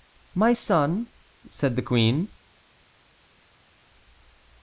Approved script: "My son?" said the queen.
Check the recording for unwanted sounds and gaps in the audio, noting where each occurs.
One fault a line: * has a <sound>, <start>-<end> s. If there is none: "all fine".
all fine